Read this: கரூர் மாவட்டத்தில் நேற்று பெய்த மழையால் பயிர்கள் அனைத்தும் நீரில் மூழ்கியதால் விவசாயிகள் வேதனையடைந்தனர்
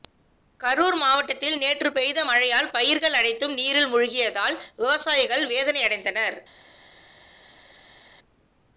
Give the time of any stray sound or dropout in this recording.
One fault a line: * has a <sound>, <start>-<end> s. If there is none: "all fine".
all fine